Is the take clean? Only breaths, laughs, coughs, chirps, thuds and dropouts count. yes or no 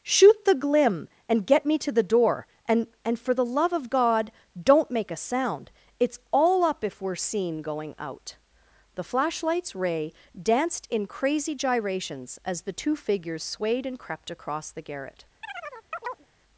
no